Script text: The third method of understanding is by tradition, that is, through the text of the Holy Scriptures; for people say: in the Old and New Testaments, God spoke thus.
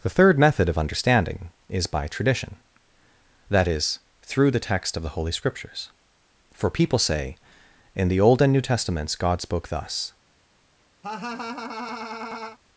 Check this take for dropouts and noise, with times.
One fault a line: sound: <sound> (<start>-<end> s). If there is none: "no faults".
sound: laugh (11.0-12.6 s)